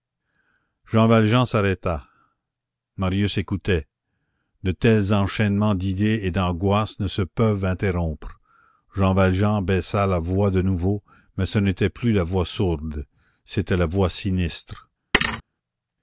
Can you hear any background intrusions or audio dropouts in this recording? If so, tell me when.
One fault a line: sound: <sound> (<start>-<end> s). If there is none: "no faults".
sound: thud (15.1-15.4 s)